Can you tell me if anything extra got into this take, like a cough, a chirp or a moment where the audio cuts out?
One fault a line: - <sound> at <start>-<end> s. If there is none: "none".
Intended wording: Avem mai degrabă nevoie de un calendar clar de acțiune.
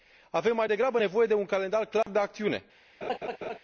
- dropout at 2.0-2.1 s
- laugh at 3.0-3.6 s